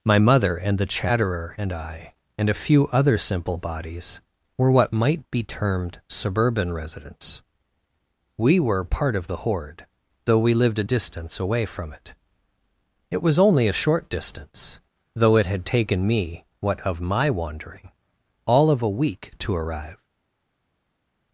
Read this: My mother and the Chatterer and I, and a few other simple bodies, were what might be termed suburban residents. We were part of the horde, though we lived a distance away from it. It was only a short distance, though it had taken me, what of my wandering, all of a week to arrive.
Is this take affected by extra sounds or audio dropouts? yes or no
no